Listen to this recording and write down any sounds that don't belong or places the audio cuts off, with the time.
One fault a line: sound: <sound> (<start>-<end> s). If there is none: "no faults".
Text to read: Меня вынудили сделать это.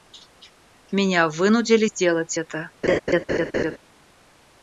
sound: laugh (2.8-3.8 s)